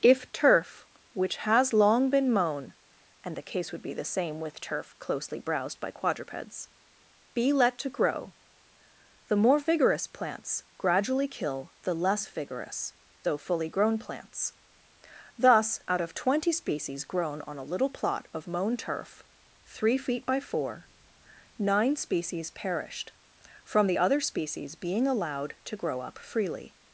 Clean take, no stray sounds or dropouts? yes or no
yes